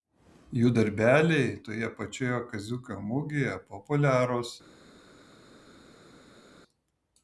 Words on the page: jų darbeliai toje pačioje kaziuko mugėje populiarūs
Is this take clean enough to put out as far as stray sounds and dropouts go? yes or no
yes